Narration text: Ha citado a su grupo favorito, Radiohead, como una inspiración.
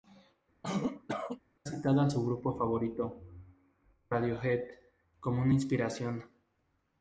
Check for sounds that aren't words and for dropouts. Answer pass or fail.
fail